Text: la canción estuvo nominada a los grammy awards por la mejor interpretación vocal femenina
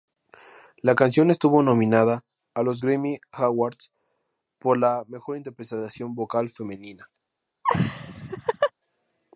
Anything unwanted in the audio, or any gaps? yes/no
yes